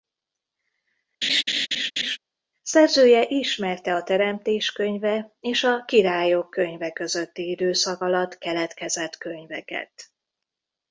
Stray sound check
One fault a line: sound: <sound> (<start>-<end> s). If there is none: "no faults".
sound: laugh (1.2-2.2 s)